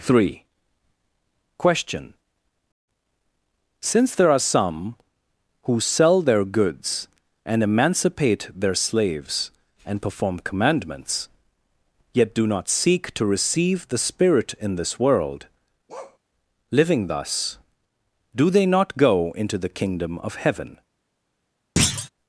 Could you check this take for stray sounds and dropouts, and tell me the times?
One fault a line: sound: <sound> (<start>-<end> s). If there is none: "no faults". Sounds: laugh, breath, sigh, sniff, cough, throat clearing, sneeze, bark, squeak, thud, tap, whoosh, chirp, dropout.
sound: bark (15.9-16.2 s)
sound: thud (21.8-22.1 s)